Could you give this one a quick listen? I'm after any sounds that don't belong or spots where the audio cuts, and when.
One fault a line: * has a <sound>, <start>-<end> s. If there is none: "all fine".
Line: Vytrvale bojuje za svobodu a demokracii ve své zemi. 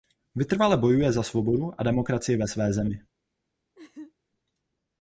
* has a laugh, 3.7-4.1 s